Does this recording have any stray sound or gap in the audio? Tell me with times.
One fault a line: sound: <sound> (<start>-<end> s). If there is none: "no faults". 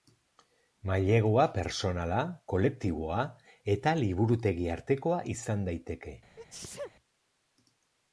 sound: sneeze (6.4-6.9 s)